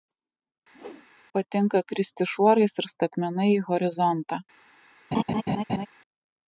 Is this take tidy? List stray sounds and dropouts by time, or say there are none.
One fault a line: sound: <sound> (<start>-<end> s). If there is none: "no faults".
sound: whoosh (0.7-1.1 s)
sound: laugh (5.1-5.9 s)